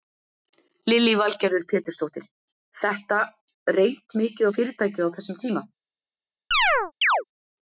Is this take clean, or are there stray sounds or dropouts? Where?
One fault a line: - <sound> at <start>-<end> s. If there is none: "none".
- chirp at 6.5-7.2 s